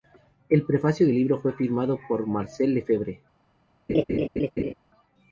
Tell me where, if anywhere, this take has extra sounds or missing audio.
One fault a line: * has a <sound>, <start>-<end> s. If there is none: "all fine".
* has a laugh, 3.9-4.7 s